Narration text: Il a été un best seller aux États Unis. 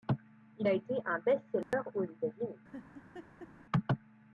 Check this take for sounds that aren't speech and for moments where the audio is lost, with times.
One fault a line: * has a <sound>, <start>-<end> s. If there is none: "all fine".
* has a dropout, 1.6-1.7 s
* has a laugh, 2.7-3.5 s